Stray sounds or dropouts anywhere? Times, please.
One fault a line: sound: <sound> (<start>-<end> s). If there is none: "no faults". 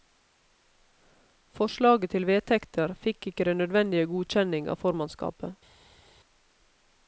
no faults